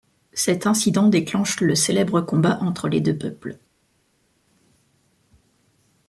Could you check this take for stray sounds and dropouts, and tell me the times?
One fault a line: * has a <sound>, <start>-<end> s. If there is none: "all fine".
all fine